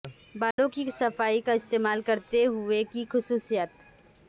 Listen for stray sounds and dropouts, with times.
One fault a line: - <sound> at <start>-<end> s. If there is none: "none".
- dropout at 0.5-0.6 s